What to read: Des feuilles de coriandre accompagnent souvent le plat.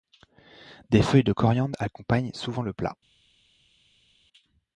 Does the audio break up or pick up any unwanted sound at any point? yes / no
no